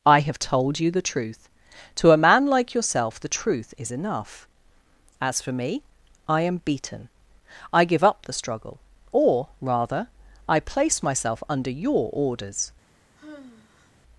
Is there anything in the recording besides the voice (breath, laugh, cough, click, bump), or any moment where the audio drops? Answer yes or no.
yes